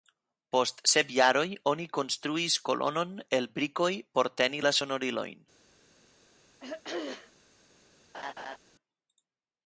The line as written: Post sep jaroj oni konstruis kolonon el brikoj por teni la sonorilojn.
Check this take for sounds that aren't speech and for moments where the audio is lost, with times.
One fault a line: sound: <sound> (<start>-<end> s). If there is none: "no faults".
sound: throat clearing (6.6-7.3 s)
sound: laugh (8.1-8.6 s)